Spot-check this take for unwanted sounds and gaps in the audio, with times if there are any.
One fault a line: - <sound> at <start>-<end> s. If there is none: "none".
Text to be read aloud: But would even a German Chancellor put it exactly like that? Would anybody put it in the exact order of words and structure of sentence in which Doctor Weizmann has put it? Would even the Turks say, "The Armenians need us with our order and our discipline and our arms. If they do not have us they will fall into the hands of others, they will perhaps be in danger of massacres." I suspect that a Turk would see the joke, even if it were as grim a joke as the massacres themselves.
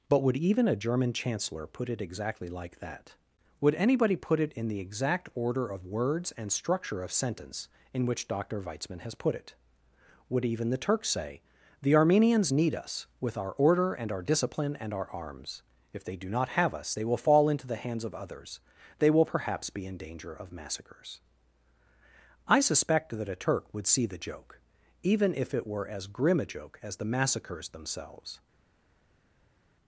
none